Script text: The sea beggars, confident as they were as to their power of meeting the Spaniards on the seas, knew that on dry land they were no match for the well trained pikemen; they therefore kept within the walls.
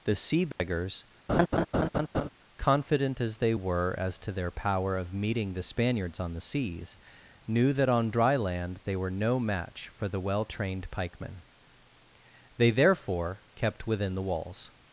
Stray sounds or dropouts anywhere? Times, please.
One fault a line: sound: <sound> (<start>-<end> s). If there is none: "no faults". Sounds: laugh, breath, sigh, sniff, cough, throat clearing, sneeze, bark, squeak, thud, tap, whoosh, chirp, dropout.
sound: dropout (0.5-0.6 s)
sound: laugh (1.3-2.3 s)